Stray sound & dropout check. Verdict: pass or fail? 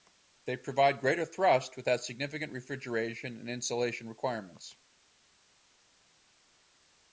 pass